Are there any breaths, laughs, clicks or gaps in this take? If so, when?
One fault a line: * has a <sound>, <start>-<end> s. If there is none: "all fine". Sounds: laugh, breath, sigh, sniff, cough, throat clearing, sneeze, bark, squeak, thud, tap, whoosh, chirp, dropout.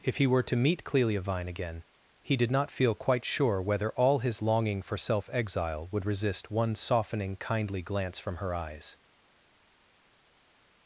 all fine